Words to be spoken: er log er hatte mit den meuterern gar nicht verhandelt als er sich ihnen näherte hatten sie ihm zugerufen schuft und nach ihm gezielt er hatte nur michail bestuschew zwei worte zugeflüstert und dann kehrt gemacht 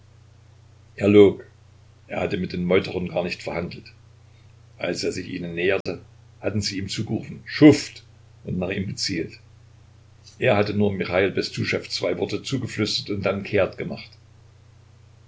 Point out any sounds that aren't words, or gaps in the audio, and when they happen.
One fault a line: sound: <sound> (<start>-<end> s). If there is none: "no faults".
sound: dropout (5.8-5.9 s)